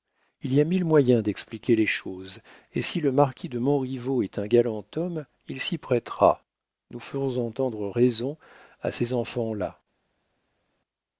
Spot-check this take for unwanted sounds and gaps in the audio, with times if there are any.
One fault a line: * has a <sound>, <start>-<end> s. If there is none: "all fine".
all fine